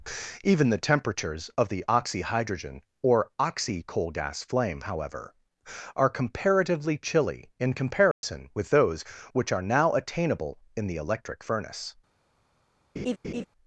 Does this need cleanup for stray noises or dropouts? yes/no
yes